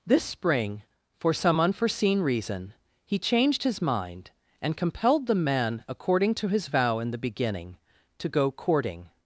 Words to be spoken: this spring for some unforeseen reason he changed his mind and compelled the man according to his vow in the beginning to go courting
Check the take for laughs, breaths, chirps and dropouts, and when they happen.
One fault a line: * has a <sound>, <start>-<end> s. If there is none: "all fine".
all fine